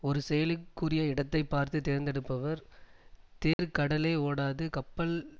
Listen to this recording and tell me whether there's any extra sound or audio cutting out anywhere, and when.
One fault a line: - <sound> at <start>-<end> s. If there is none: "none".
- dropout at 3.5-3.6 s